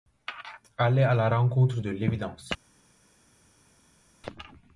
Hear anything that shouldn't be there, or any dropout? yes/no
no